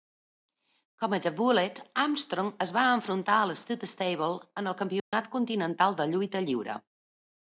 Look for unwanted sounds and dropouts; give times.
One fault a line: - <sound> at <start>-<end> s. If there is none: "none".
- dropout at 5.0-5.1 s